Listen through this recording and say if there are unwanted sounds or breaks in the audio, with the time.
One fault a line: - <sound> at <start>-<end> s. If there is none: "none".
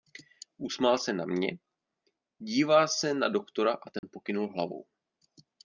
- dropout at 4.0-4.0 s